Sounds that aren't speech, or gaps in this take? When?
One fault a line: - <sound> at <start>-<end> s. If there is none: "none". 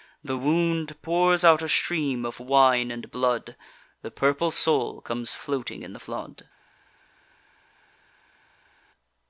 none